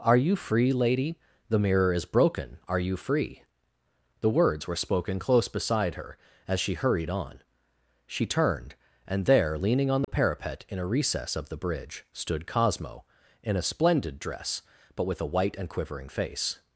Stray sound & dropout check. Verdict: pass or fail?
fail